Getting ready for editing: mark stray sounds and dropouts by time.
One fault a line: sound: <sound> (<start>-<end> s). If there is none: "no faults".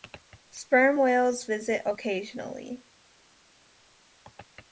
no faults